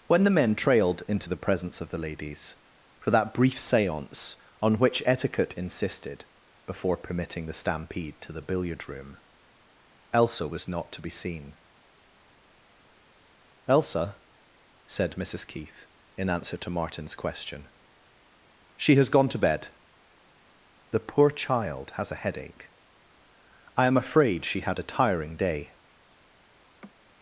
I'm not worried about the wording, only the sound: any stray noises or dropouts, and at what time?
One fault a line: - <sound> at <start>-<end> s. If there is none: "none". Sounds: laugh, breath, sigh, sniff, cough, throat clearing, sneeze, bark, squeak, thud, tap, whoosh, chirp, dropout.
- laugh at 26.6-26.9 s